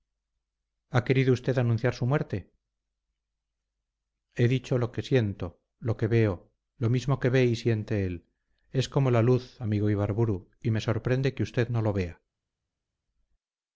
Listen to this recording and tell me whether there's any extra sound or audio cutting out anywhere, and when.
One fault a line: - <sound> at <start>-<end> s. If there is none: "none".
none